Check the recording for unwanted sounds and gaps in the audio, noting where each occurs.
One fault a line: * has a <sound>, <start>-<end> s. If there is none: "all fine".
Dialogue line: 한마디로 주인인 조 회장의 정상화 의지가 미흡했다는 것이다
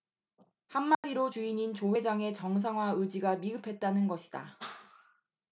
* has a dropout, 0.9-1.0 s